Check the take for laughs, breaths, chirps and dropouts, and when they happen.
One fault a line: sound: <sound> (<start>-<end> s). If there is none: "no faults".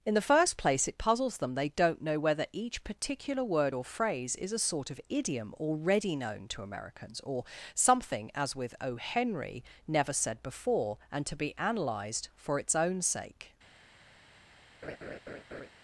sound: laugh (14.8-15.7 s)